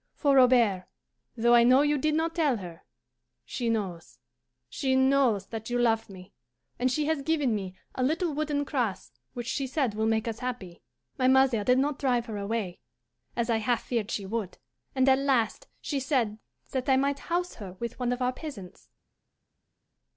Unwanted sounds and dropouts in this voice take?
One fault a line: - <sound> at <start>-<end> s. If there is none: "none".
none